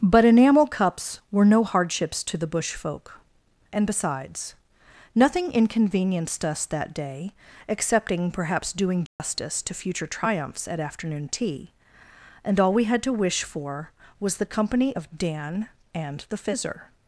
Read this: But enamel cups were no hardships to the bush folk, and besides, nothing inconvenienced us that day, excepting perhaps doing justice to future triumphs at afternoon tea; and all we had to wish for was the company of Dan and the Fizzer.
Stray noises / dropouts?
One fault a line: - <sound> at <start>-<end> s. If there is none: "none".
- dropout at 9.1-9.2 s